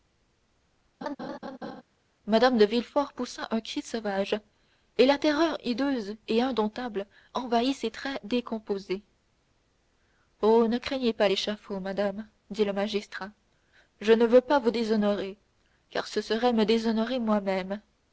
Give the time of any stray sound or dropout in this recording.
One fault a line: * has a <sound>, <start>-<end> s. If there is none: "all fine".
* has a laugh, 1.0-1.8 s